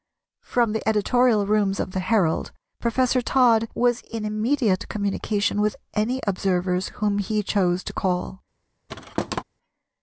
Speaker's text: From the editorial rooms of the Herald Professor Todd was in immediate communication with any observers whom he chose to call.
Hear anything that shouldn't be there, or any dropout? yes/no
yes